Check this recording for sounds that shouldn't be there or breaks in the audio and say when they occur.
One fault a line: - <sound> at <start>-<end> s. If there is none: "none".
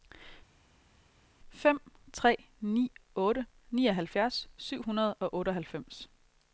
none